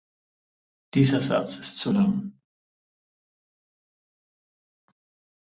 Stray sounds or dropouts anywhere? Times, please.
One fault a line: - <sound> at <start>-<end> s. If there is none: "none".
none